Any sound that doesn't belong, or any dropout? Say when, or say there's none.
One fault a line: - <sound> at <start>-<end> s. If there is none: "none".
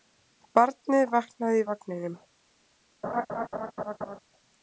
- laugh at 3.0-4.2 s